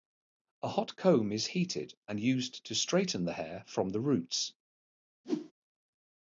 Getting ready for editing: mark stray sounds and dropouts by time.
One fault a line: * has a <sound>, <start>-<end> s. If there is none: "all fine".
* has a whoosh, 5.2-5.5 s